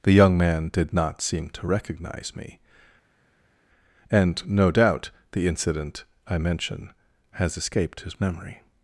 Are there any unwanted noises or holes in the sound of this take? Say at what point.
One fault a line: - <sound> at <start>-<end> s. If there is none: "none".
none